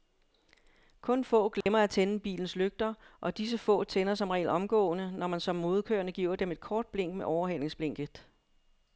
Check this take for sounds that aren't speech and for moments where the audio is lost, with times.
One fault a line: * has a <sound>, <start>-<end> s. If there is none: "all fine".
* has a dropout, 1.6-1.7 s